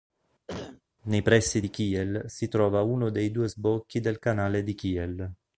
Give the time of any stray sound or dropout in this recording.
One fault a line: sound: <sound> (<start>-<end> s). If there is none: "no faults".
sound: cough (0.5-0.8 s)